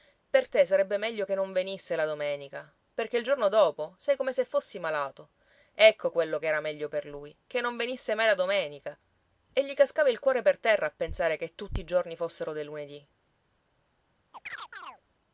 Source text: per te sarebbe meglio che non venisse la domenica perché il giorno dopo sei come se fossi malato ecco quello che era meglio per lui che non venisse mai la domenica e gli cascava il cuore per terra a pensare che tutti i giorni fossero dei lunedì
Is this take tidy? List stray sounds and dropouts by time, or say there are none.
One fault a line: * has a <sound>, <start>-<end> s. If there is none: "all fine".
* has a chirp, 14.3-15.0 s